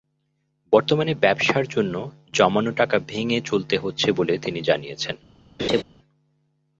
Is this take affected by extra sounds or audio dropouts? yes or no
yes